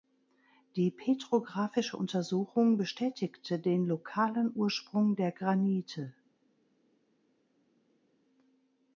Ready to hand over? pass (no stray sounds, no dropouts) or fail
pass